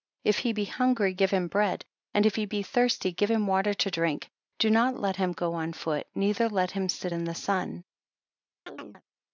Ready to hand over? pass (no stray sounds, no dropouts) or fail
fail